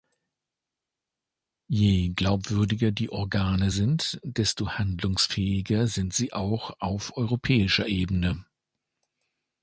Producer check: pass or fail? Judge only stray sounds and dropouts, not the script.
pass